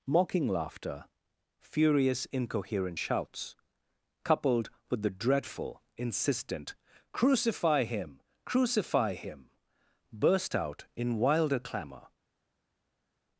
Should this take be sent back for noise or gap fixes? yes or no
no